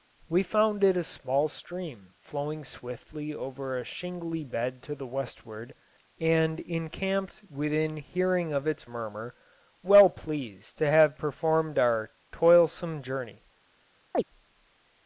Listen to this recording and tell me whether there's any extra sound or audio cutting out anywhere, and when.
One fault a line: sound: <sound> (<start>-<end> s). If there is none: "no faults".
sound: chirp (14.1-14.2 s)